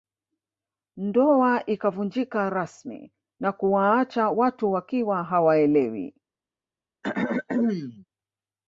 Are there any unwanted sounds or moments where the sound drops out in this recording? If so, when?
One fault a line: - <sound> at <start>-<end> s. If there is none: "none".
- throat clearing at 7.0-8.1 s